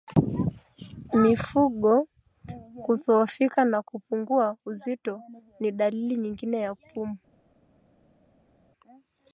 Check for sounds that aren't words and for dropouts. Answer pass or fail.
pass